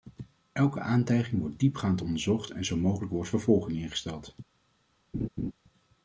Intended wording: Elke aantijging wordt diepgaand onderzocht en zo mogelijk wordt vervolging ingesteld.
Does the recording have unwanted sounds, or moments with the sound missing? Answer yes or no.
yes